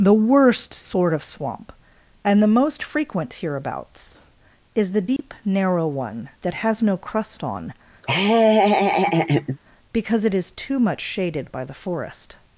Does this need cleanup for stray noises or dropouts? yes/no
yes